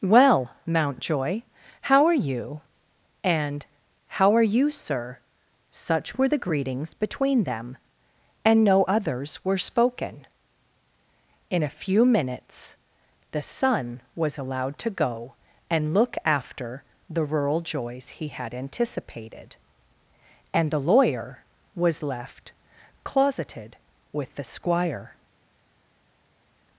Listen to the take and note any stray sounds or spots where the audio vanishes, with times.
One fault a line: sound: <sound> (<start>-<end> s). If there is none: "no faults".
no faults